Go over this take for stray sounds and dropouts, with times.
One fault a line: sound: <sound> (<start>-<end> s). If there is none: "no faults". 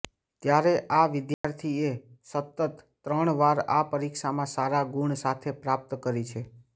sound: dropout (1.3-1.4 s)